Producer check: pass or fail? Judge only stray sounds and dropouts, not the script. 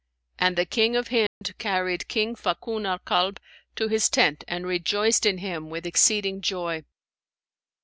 fail